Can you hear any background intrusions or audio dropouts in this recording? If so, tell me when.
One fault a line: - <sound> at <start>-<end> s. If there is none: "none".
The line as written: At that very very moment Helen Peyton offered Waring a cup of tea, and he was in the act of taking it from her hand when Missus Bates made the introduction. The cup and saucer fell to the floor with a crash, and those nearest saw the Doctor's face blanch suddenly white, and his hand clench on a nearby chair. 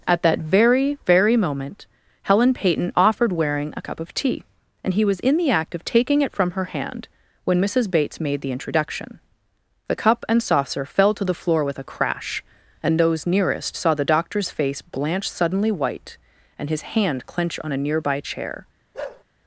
- bark at 18.9-19.2 s